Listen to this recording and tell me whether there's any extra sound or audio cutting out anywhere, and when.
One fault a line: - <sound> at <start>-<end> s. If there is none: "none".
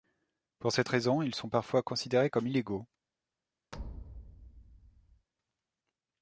- thud at 3.7-5.3 s